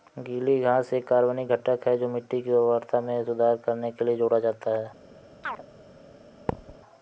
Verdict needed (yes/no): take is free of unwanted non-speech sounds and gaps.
no